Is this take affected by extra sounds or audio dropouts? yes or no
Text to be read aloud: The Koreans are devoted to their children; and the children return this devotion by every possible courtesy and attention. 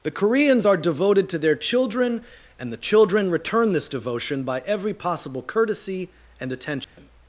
yes